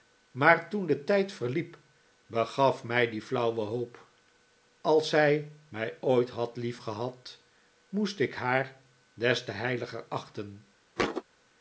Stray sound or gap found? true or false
true